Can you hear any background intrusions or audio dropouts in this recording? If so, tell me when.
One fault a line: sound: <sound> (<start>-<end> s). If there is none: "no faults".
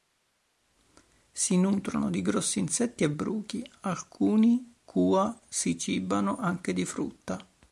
no faults